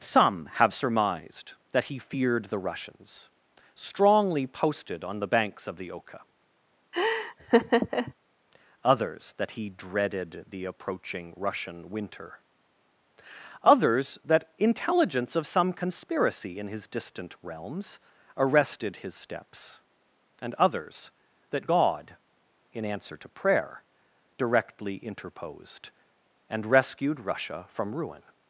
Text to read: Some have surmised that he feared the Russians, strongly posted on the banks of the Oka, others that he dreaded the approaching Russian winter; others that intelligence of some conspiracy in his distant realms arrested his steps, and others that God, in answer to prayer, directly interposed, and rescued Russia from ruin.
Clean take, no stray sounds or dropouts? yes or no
no